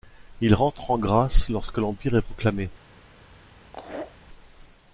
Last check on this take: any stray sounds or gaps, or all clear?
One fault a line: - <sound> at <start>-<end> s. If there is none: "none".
- laugh at 3.6-4.2 s